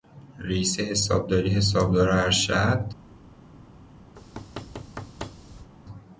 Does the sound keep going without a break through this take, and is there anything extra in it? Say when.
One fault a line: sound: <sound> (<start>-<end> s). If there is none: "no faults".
sound: thud (4.2-5.7 s)